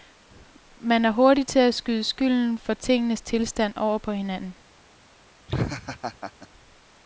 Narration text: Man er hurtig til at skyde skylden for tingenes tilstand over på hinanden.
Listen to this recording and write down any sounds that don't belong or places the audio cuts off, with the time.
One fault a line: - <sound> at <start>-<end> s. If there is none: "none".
- laugh at 5.5-6.5 s